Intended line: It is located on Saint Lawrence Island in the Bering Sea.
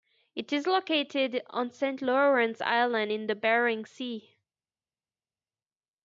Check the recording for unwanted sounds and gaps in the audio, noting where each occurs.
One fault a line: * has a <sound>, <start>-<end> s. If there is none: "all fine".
all fine